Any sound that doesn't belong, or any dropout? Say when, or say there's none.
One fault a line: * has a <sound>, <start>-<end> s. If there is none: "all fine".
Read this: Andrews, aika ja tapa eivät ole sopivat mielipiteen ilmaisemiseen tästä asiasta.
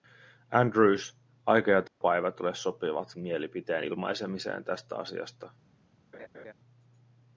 * has a dropout, 1.9-2.0 s
* has a laugh, 6.1-6.5 s